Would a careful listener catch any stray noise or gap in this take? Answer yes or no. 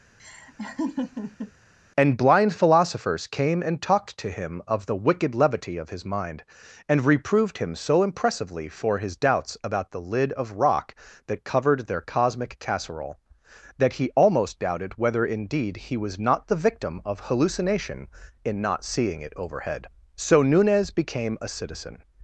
yes